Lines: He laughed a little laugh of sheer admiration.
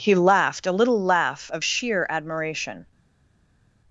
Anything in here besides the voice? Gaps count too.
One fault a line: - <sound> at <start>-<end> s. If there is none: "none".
none